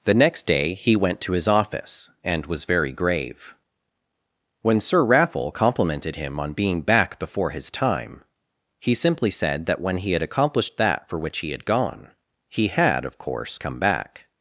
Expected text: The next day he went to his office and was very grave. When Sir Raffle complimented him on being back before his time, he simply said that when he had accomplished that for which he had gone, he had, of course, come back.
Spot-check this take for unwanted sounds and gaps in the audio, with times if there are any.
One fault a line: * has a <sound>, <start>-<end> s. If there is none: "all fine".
all fine